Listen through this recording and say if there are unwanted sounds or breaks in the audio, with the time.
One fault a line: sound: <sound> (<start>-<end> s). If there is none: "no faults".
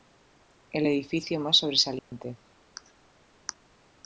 sound: dropout (2.0-2.1 s)